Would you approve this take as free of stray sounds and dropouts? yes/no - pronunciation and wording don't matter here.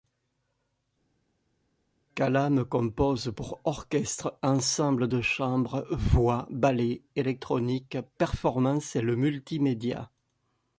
yes